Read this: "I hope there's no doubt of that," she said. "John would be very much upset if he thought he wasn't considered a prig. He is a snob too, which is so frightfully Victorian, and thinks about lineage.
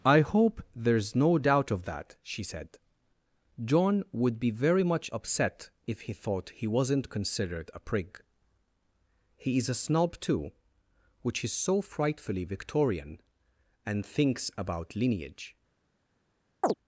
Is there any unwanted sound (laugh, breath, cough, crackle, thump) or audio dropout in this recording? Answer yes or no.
yes